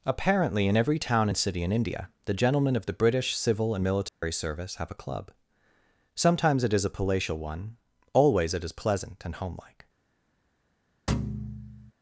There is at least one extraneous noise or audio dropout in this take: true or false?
true